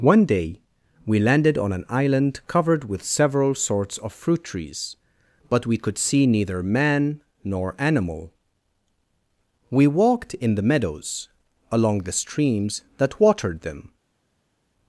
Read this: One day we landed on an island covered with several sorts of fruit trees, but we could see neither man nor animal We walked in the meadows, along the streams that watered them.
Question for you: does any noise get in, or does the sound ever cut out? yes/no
no